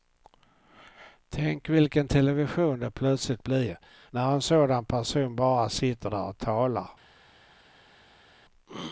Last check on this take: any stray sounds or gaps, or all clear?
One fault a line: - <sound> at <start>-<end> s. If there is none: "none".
none